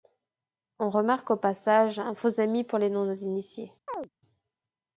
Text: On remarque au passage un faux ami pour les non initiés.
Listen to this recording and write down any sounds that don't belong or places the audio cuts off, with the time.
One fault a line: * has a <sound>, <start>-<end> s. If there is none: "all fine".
* has a chirp, 3.9-4.1 s